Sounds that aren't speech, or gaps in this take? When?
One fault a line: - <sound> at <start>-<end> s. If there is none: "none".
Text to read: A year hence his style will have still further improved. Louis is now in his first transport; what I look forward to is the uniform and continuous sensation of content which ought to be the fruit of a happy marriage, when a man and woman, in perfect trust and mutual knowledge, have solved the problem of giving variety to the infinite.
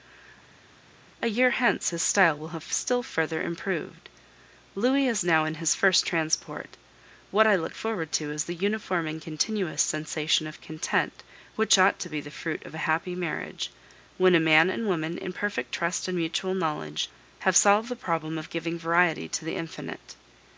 none